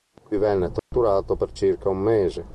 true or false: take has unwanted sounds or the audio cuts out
true